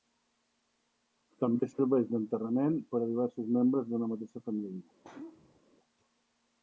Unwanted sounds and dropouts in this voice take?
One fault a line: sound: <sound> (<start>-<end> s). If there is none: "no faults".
sound: sneeze (5.0-5.6 s)